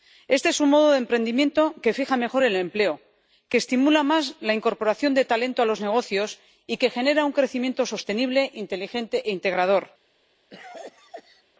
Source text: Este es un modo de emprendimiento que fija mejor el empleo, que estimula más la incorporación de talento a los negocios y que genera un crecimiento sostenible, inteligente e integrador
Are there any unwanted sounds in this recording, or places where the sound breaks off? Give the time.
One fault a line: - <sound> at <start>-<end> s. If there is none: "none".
- cough at 10.5-11.4 s